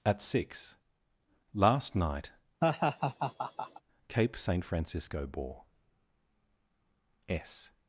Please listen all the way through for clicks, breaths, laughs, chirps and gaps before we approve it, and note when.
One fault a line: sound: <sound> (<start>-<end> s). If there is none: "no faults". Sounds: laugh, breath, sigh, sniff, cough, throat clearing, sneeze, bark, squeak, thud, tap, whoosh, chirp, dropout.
sound: laugh (2.6-3.8 s)